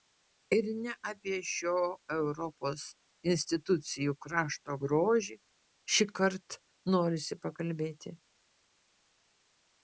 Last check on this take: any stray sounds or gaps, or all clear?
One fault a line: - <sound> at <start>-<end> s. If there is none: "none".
none